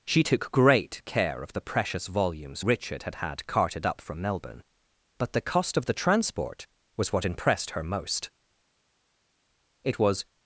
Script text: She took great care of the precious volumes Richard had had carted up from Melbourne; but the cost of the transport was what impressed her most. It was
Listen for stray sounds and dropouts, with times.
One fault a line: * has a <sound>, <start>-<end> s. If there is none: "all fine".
all fine